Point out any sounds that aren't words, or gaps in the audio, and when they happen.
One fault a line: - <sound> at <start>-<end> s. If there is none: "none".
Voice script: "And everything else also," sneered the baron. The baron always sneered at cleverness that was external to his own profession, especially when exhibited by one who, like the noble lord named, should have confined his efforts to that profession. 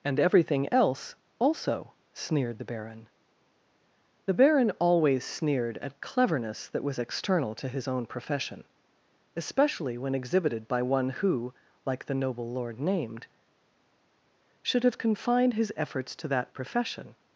none